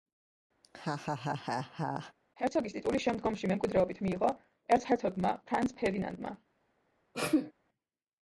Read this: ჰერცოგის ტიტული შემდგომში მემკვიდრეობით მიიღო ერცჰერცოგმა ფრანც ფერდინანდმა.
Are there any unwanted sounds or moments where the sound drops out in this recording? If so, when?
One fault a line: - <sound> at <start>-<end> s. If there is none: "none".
- laugh at 0.6-2.1 s
- sneeze at 7.1-7.5 s